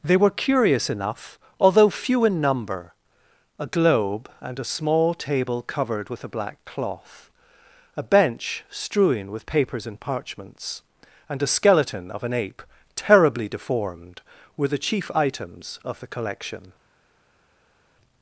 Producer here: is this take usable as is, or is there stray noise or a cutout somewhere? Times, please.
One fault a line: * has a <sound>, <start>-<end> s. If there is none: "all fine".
all fine